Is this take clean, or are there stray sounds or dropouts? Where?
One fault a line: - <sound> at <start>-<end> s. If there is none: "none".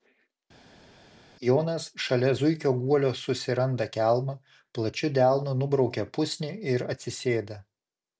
none